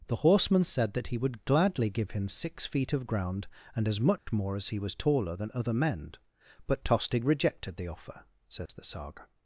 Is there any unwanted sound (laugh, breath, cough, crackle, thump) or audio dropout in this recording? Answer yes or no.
yes